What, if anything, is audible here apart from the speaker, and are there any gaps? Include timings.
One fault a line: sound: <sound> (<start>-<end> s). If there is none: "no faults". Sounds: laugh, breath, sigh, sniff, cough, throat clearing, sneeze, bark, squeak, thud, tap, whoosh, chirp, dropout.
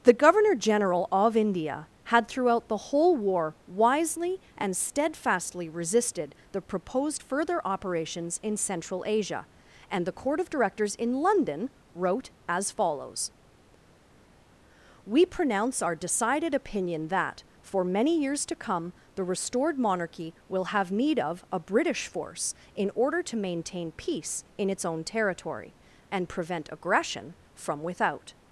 no faults